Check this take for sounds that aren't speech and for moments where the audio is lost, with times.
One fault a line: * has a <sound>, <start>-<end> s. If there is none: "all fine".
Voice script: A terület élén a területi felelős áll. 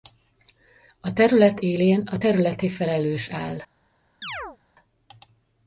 * has a chirp, 4.2-4.6 s